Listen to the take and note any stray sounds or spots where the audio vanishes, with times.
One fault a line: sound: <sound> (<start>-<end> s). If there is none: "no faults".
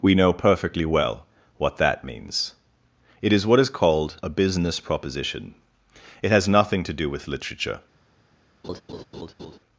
sound: laugh (8.6-9.6 s)